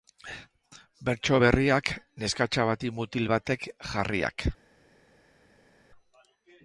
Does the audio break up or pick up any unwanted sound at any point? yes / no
no